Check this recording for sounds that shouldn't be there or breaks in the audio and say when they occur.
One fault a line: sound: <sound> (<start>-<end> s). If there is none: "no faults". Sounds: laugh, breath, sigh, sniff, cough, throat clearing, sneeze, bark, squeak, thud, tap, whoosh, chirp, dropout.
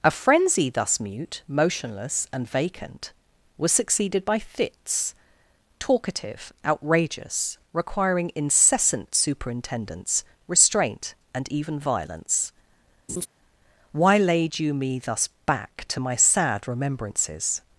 sound: laugh (13.1-13.3 s)